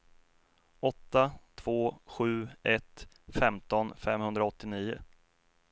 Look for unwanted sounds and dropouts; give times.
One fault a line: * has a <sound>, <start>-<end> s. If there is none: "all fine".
all fine